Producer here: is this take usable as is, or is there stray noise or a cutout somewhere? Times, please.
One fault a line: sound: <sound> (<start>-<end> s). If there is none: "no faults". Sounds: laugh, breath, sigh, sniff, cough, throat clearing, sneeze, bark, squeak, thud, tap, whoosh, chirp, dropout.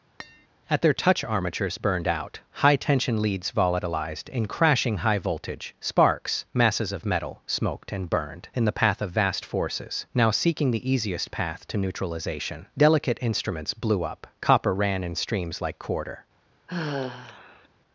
sound: tap (0.2-0.5 s)
sound: sigh (16.7-17.7 s)